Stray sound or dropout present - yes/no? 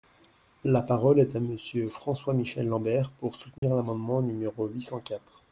yes